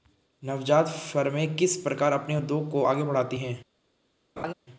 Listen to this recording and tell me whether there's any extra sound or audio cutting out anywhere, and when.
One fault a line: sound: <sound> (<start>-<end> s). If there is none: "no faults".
sound: laugh (4.4-4.5 s)